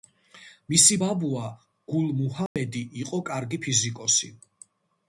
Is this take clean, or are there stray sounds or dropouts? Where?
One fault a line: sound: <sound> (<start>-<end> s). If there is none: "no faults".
sound: dropout (2.5-2.6 s)